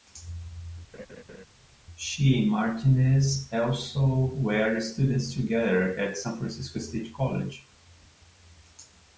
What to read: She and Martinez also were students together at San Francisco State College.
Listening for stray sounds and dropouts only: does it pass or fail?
fail